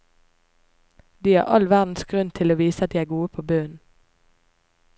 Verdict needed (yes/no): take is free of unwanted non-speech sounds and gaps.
yes